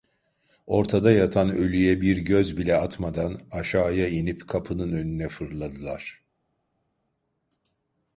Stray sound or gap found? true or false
false